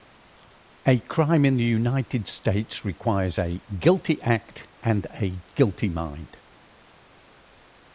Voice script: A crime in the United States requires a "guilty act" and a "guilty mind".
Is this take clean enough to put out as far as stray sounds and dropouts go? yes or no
yes